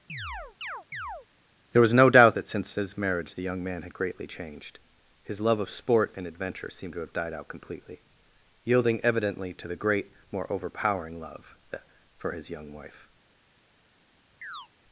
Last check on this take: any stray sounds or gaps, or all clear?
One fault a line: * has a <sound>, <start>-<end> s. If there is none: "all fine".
* has a chirp, 0.1-1.3 s
* has a chirp, 14.4-14.7 s